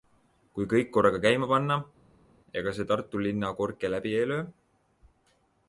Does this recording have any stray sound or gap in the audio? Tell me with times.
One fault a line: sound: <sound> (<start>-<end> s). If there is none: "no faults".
no faults